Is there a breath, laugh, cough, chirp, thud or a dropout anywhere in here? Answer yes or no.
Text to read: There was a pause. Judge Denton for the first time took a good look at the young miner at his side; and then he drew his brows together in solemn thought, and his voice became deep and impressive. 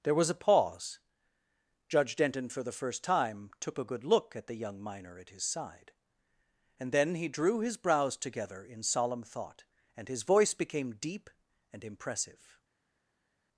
no